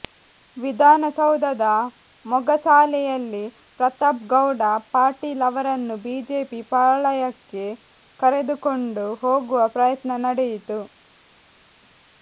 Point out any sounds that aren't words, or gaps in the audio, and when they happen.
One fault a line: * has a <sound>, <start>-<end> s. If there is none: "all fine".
all fine